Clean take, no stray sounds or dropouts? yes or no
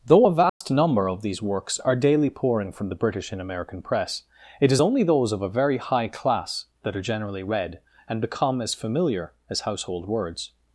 no